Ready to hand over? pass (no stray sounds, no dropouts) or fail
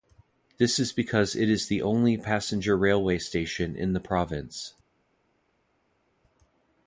pass